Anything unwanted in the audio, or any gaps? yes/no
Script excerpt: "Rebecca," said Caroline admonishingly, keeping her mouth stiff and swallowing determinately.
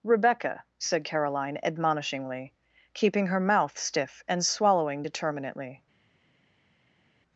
no